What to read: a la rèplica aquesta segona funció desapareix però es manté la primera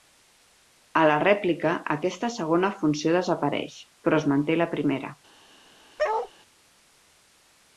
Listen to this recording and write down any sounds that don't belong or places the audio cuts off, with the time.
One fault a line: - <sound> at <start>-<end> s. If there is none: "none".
- bark at 6.0-6.3 s